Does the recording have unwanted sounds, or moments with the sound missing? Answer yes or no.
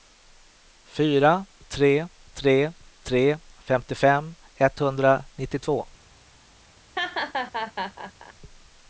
yes